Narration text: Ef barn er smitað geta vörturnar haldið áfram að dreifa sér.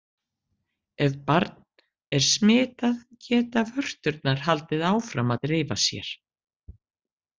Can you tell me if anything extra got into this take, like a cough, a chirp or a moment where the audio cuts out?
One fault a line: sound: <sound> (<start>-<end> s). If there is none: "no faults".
no faults